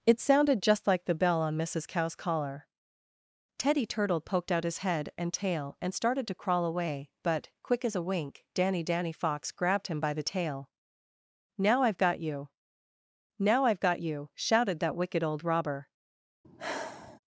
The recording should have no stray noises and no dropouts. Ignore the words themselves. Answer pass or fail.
fail